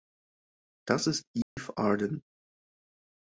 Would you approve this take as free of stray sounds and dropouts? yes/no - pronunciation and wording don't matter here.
no